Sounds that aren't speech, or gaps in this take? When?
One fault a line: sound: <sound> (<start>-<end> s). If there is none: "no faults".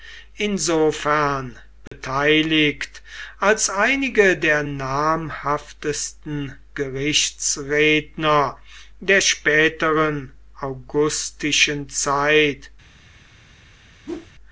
sound: dropout (1.9-1.9 s)
sound: whoosh (14.0-14.3 s)